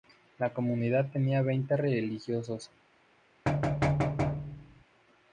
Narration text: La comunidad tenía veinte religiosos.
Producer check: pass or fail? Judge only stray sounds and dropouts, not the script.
fail